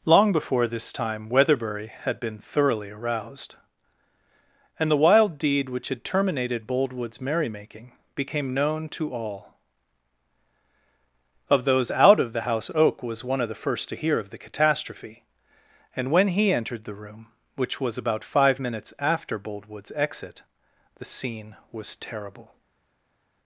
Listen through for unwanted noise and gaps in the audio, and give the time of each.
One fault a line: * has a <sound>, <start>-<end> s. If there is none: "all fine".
all fine